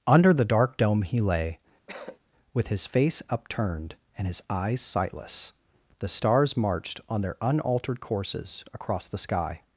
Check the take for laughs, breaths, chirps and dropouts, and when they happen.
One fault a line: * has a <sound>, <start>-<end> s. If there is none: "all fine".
* has a cough, 1.9-2.2 s